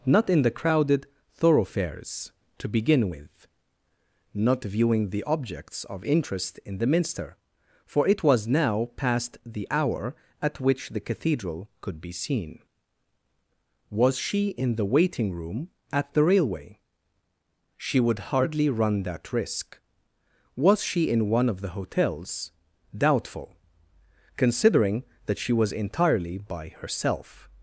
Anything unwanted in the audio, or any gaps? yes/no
no